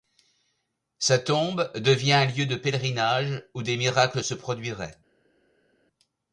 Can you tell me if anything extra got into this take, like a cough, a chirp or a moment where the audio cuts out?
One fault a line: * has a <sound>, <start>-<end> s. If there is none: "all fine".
all fine